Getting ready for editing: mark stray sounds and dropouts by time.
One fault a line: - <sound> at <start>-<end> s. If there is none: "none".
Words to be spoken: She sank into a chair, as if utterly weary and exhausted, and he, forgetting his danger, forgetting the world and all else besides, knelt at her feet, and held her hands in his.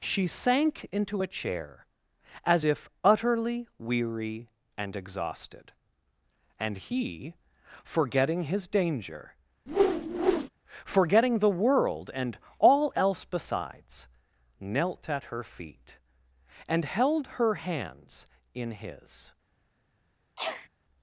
- whoosh at 9.7-10.5 s
- sneeze at 20.4-20.7 s